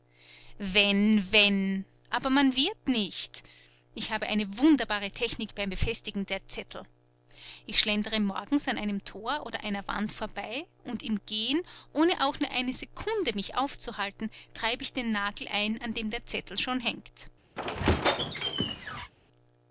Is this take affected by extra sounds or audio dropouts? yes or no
yes